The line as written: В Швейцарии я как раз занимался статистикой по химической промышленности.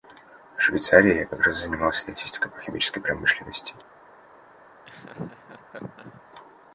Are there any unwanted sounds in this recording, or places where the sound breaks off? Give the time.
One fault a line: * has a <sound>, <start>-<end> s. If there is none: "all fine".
* has a laugh, 4.9-6.2 s